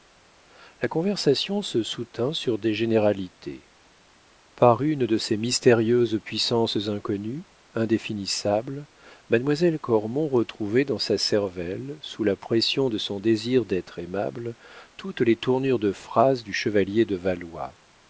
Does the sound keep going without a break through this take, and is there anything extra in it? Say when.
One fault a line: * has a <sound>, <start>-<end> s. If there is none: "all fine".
all fine